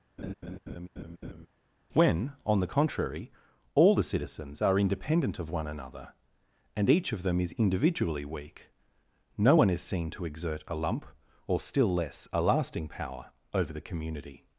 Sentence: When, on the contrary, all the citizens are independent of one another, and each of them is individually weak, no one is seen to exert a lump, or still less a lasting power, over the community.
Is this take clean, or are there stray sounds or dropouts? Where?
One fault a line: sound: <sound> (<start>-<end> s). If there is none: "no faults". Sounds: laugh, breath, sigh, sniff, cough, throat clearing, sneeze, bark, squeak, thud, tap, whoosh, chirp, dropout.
sound: laugh (0.2-1.5 s)